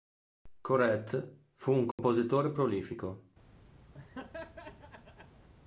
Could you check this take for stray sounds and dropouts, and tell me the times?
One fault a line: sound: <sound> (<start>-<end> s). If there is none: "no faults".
sound: dropout (1.9-2.0 s)
sound: laugh (3.9-5.5 s)